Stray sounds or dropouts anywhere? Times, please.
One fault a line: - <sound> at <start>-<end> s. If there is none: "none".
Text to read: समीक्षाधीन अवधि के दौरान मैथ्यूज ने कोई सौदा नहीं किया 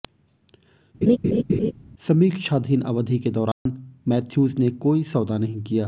- laugh at 1.0-1.7 s
- dropout at 3.5-3.7 s